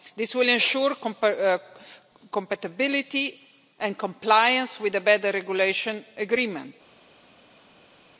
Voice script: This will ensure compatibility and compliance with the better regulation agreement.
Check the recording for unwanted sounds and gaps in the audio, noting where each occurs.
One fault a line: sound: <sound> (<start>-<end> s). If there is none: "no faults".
no faults